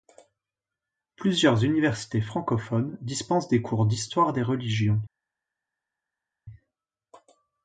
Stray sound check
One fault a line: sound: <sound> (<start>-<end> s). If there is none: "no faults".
no faults